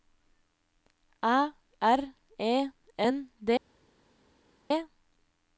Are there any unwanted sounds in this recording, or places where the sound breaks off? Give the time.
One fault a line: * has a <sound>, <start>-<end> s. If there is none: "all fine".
all fine